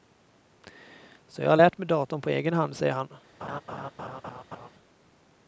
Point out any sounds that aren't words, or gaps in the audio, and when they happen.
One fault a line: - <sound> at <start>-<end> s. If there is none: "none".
- laugh at 3.4-4.7 s